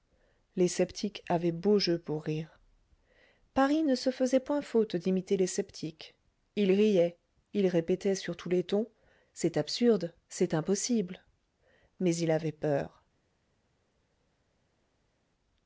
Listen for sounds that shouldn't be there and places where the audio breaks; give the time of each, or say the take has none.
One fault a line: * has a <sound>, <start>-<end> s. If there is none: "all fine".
all fine